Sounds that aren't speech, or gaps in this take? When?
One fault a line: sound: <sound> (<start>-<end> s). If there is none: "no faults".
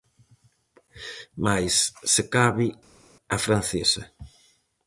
no faults